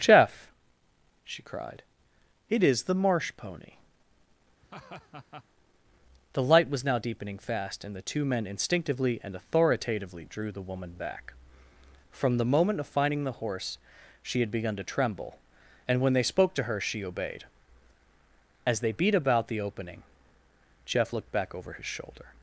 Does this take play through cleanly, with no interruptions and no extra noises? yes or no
no